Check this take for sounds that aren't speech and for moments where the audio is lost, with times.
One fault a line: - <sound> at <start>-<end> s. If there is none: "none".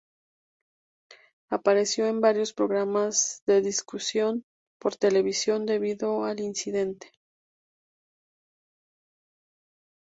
none